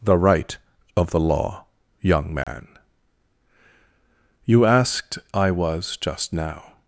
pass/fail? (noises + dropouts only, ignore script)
fail